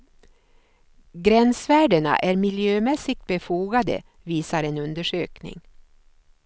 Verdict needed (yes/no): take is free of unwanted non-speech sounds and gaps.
yes